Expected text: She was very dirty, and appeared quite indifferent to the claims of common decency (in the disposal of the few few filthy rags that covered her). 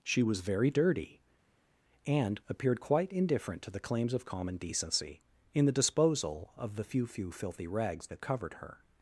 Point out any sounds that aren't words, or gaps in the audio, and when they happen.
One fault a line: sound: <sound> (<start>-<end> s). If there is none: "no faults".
no faults